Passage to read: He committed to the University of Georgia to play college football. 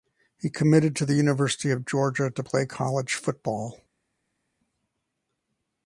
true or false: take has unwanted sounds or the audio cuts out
false